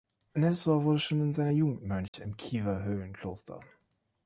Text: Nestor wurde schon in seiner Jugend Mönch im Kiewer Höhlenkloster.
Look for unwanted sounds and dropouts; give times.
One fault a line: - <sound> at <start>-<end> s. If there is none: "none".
- dropout at 2.1-2.1 s